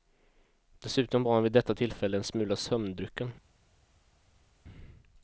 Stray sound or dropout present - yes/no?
no